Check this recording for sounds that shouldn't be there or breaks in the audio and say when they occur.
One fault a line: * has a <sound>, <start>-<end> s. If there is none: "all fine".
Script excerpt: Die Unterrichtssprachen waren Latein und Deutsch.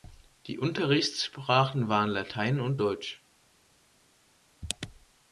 all fine